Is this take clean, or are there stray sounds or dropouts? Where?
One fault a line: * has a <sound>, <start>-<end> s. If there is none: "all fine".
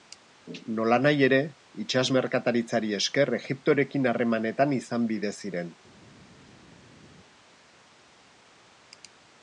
all fine